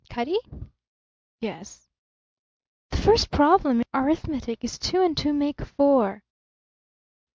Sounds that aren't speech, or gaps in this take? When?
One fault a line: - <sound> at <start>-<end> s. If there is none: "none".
none